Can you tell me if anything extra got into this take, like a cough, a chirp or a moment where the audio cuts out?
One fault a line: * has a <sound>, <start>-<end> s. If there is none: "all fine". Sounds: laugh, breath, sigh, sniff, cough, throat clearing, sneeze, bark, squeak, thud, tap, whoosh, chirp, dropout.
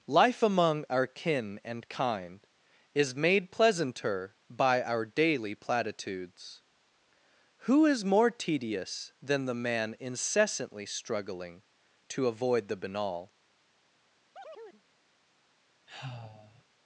* has a chirp, 14.3-14.8 s
* has a sigh, 15.9-16.6 s